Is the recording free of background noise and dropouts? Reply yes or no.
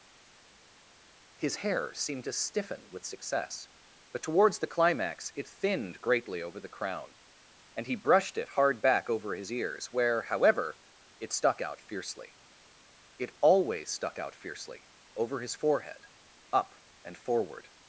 yes